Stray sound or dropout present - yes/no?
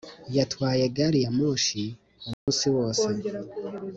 yes